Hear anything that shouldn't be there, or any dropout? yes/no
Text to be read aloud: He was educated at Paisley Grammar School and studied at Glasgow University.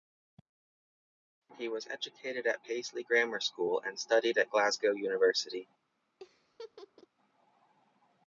yes